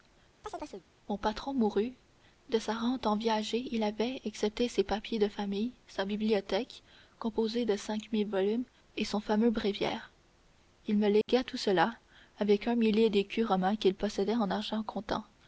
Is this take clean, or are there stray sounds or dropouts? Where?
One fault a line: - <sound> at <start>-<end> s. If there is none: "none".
- chirp at 0.4-0.9 s
- dropout at 11.2-11.3 s